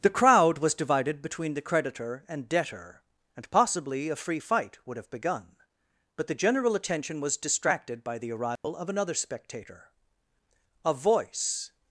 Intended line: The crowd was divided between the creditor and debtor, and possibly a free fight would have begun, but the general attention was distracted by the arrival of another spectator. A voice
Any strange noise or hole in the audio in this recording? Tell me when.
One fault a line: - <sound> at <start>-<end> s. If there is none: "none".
- dropout at 8.6-8.6 s